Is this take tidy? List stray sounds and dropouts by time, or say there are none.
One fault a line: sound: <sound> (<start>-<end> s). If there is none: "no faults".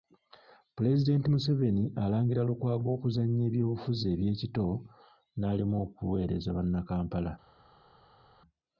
no faults